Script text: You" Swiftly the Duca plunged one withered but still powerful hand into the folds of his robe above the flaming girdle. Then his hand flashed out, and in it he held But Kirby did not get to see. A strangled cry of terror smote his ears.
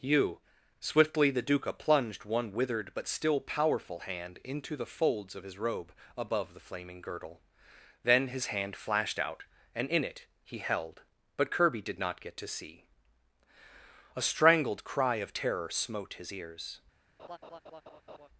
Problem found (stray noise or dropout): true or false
true